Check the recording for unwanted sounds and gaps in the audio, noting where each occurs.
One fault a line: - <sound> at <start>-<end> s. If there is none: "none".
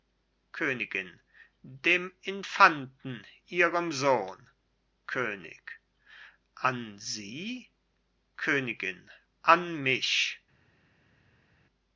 none